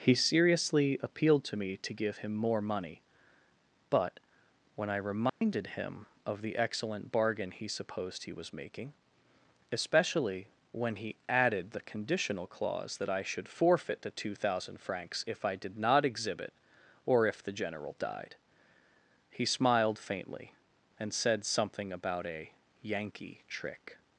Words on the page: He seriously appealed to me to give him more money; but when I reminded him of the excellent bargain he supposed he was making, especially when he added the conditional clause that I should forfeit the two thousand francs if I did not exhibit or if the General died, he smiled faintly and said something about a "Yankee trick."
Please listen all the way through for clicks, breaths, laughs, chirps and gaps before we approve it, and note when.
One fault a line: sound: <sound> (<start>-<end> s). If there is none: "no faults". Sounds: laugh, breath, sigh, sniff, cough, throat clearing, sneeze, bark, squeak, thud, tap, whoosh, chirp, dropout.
sound: dropout (5.3-5.4 s)